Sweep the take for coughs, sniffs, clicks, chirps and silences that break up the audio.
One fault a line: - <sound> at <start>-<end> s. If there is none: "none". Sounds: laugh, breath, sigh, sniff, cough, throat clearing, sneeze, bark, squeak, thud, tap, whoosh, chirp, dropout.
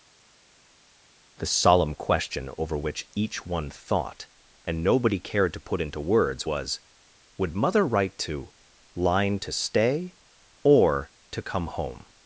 none